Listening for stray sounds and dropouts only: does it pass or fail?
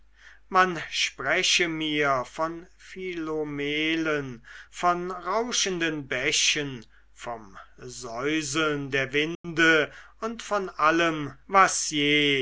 fail